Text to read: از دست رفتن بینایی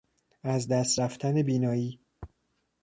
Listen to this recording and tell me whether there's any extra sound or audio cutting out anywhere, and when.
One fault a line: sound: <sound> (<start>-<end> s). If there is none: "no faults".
no faults